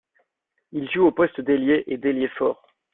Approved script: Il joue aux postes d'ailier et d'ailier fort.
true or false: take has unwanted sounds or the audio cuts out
false